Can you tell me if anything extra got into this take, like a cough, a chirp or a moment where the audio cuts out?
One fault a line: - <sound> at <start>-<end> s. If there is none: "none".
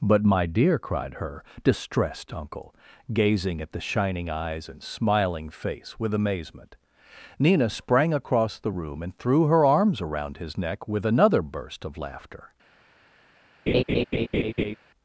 - laugh at 13.7-14.8 s